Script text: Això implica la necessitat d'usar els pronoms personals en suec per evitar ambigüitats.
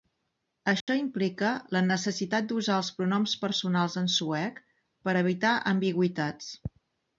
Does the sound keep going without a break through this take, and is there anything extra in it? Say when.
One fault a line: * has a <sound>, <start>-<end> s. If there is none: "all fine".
* has a dropout, 0.8-0.9 s